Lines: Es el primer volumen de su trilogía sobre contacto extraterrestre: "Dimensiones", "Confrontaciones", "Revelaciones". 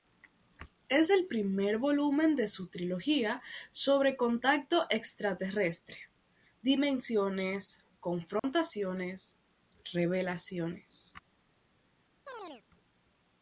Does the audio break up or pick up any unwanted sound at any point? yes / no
yes